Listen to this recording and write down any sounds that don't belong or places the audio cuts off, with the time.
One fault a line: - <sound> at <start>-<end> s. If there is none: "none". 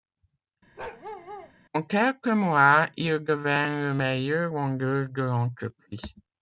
- bark at 0.8-1.5 s